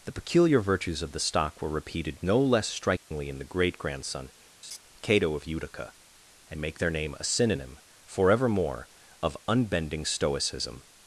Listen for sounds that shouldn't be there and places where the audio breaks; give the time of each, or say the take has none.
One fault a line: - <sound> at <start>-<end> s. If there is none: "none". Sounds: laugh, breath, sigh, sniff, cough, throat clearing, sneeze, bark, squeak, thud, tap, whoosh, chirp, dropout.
- dropout at 3.0-3.1 s
- laugh at 4.6-4.8 s